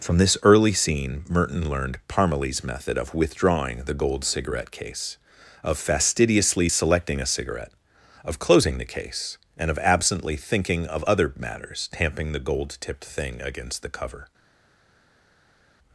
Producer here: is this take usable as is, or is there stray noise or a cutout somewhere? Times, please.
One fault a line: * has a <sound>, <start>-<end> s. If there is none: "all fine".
all fine